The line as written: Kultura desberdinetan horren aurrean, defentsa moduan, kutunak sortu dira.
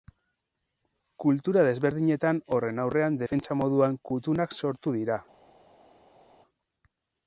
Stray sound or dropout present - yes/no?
no